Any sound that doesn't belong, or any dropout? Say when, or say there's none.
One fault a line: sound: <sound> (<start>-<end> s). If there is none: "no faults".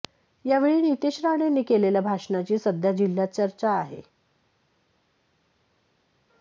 no faults